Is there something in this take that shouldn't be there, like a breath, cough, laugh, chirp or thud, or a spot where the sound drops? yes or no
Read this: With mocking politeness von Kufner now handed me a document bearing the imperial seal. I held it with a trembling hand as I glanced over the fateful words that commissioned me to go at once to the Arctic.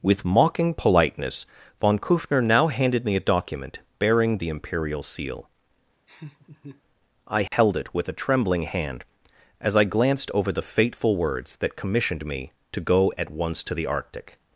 yes